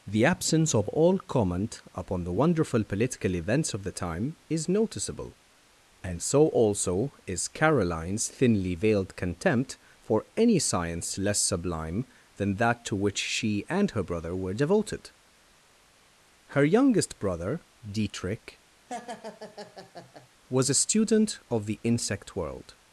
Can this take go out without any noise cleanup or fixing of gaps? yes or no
no